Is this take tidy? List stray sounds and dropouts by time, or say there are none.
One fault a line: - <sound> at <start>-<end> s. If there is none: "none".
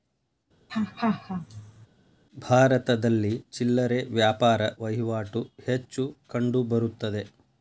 - laugh at 0.7-1.9 s